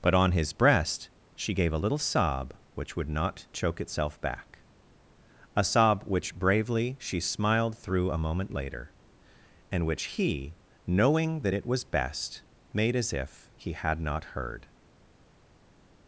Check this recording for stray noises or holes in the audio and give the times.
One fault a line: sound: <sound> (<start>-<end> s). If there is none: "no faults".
no faults